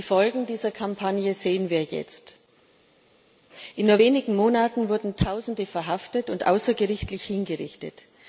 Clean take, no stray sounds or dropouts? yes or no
yes